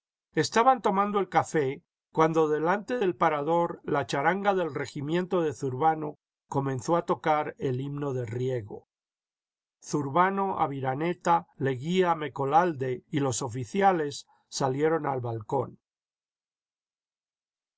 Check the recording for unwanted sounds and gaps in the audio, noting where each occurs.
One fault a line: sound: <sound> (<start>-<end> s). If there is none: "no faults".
no faults